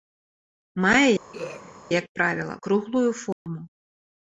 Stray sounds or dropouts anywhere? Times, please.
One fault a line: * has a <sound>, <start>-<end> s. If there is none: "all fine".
* has a throat clearing, 1.3-1.8 s
* has a dropout, 3.3-3.5 s